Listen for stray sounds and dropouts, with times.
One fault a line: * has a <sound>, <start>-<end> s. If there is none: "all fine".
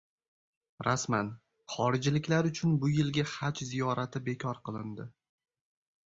all fine